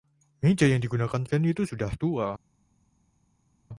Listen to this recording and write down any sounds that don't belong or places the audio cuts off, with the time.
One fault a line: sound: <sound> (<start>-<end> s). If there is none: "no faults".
no faults